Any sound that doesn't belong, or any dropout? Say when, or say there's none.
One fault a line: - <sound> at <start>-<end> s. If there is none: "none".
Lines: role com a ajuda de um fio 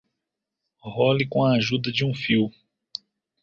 none